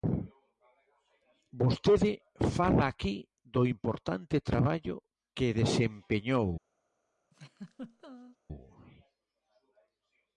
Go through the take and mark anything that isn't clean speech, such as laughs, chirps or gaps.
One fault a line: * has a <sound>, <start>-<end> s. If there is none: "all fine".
* has a laugh, 7.3-8.4 s